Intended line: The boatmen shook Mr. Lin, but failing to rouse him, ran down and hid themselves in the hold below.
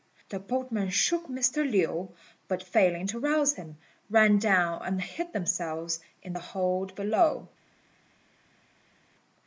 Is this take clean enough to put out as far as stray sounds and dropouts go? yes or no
yes